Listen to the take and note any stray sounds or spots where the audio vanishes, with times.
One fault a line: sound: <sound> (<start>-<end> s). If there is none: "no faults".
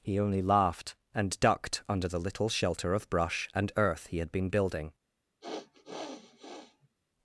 sound: sniff (5.4-7.0 s)